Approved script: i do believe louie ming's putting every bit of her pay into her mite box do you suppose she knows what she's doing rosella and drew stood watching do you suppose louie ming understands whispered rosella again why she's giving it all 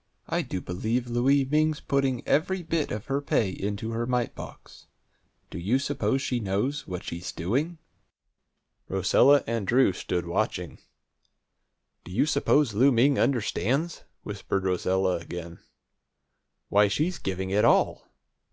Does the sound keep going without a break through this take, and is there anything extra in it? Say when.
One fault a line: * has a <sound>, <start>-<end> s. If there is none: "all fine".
all fine